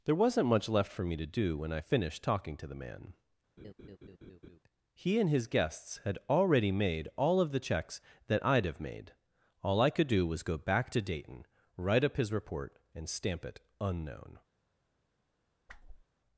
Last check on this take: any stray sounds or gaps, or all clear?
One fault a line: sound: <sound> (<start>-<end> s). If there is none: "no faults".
sound: laugh (3.6-4.6 s)
sound: whoosh (15.7-16.0 s)